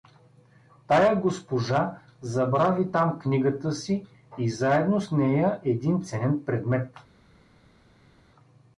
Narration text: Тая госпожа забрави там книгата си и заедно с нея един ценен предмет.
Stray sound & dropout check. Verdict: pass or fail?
pass